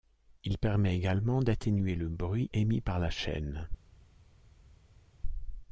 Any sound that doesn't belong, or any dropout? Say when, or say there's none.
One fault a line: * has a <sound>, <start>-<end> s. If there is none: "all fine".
all fine